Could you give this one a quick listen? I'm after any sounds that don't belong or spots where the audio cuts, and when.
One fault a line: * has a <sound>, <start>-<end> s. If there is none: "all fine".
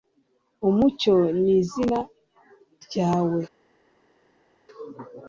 all fine